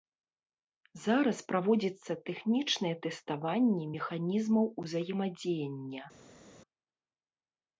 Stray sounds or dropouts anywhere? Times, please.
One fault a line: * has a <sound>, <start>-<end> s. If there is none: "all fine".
all fine